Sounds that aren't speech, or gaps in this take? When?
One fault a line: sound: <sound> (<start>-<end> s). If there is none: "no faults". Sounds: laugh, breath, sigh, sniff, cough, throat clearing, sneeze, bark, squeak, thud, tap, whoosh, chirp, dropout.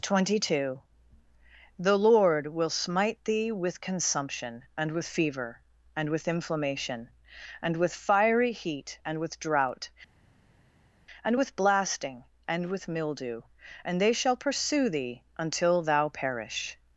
no faults